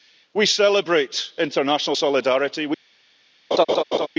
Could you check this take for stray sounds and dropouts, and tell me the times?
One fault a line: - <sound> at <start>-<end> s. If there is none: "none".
- laugh at 3.5-4.1 s